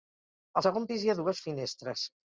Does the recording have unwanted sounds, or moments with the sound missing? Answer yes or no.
no